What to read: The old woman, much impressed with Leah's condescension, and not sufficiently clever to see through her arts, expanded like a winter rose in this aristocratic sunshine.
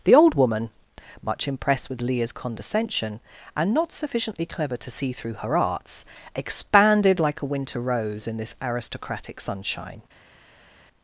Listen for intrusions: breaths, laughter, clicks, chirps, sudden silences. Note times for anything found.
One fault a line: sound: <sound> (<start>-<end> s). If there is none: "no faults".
no faults